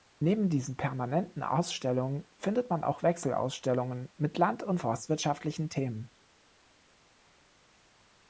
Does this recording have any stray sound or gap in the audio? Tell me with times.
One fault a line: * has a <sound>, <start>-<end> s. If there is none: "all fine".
all fine